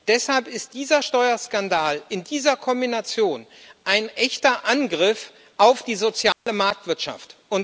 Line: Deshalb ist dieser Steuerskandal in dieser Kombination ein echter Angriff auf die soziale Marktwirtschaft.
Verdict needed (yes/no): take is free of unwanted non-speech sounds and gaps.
no